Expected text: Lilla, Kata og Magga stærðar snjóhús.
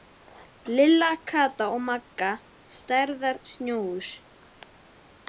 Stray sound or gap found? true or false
false